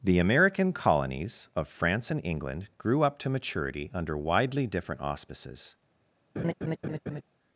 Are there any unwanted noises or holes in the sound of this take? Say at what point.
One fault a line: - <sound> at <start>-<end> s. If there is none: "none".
- laugh at 6.4-7.2 s